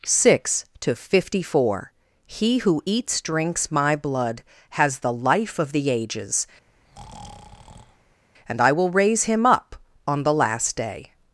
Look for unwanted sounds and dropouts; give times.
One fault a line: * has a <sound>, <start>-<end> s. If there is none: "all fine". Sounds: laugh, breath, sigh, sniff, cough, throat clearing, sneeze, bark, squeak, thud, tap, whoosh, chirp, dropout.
* has a breath, 6.7-8.2 s